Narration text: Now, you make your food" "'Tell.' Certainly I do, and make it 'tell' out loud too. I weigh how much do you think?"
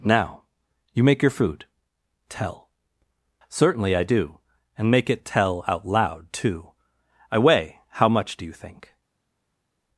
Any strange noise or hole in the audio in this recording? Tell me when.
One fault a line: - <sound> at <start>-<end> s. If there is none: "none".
none